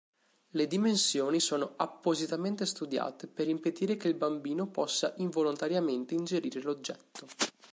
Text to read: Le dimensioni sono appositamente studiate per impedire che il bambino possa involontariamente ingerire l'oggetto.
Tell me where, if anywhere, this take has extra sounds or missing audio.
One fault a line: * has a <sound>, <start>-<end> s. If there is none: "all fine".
all fine